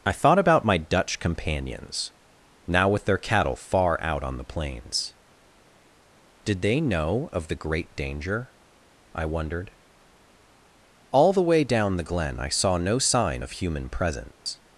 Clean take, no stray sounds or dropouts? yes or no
no